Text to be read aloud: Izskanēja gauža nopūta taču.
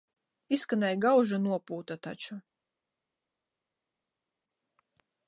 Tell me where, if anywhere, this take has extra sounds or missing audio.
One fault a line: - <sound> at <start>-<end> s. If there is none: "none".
none